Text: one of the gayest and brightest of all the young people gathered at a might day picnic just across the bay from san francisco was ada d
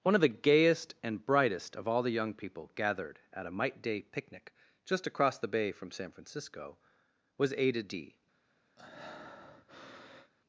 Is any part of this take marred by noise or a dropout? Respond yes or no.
yes